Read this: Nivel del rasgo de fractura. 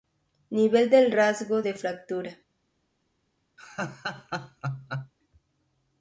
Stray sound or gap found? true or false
true